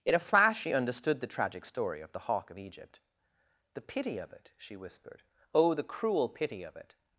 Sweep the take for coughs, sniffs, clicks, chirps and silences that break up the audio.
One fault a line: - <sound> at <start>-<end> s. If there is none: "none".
none